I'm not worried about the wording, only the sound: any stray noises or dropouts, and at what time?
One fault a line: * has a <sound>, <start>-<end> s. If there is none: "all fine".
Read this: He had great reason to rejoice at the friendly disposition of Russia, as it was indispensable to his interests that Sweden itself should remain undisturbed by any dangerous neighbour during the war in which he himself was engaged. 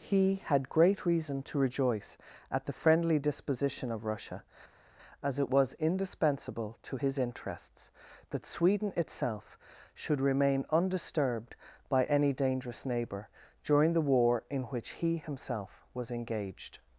all fine